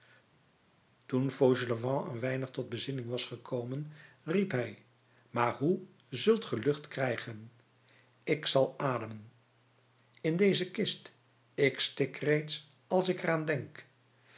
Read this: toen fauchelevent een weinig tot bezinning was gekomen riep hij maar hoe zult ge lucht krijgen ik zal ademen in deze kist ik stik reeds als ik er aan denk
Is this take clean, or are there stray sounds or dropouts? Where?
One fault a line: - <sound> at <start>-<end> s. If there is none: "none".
none